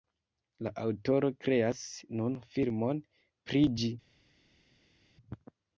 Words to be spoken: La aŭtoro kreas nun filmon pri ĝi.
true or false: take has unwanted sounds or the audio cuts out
false